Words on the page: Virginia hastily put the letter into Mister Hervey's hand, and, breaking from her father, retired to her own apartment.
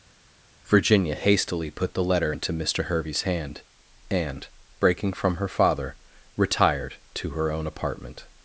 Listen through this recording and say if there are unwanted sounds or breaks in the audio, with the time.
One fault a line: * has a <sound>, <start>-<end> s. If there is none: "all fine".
all fine